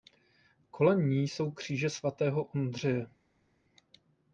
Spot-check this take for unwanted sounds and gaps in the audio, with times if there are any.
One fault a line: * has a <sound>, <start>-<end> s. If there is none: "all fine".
all fine